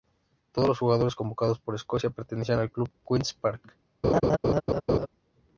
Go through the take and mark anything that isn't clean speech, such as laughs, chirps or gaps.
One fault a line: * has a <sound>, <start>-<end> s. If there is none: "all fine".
* has a laugh, 4.0-5.1 s